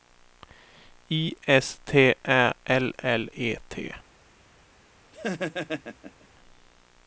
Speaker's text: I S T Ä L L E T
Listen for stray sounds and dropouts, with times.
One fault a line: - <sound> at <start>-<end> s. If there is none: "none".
- laugh at 5.1-6.3 s